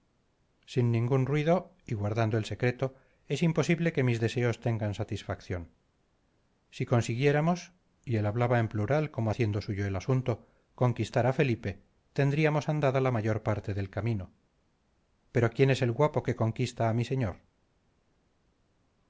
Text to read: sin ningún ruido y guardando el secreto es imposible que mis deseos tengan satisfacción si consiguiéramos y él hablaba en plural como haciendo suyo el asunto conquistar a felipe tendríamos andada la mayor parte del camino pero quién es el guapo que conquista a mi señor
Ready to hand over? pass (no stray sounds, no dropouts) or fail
pass